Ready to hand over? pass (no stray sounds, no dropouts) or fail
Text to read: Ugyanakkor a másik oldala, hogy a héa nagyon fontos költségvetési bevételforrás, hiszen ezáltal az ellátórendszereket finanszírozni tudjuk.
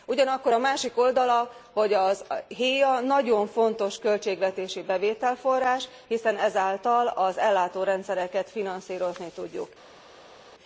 pass